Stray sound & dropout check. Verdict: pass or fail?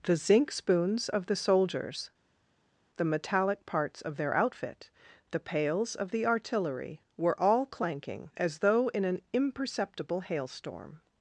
pass